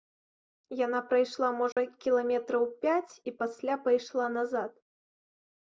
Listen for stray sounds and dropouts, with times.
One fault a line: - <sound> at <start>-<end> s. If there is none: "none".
- dropout at 1.7-1.8 s